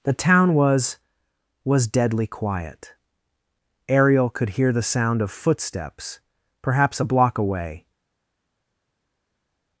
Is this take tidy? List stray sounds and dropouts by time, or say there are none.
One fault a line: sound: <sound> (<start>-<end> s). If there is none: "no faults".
no faults